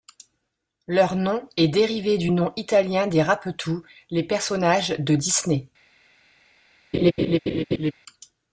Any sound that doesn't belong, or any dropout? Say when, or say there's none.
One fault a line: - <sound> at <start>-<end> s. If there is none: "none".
- laugh at 6.9-7.9 s